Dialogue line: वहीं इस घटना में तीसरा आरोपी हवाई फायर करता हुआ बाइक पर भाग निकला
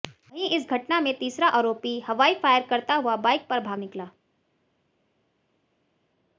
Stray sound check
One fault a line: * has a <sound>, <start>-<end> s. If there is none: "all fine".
all fine